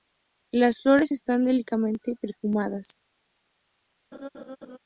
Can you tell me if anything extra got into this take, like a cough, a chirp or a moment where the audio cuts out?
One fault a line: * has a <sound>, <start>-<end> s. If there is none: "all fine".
* has a laugh, 4.1-4.8 s